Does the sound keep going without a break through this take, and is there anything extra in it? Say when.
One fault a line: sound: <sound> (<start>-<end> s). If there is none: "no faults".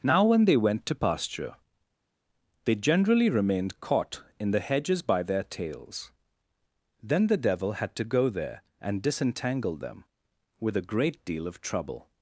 no faults